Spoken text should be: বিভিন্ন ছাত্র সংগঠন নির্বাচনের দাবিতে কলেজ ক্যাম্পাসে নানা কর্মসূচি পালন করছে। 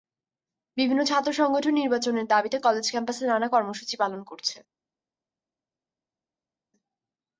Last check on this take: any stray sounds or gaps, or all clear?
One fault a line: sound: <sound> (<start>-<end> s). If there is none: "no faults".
no faults